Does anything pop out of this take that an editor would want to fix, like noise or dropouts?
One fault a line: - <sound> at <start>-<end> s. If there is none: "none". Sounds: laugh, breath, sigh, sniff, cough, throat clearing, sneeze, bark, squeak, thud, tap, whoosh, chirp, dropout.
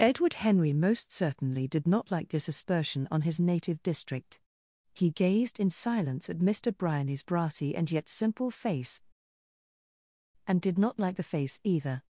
none